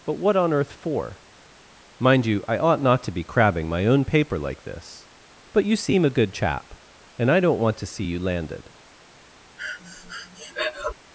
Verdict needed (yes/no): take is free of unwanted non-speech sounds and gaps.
no